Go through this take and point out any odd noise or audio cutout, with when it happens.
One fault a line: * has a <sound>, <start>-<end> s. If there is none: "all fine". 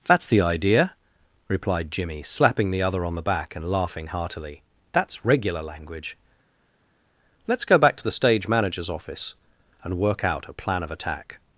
all fine